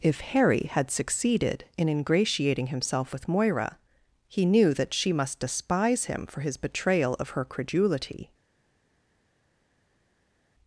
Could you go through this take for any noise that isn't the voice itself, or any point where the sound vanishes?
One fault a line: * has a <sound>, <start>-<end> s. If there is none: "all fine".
all fine